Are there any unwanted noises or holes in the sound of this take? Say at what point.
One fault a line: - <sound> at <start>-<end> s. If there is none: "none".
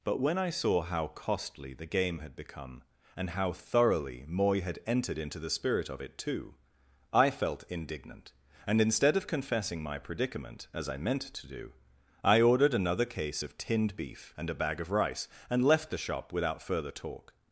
none